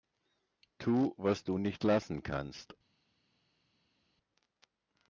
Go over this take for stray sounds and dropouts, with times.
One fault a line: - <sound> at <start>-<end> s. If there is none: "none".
none